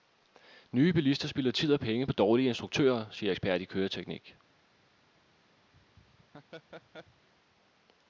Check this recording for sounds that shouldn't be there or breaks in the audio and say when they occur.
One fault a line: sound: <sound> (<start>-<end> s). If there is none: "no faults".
sound: laugh (5.7-7.3 s)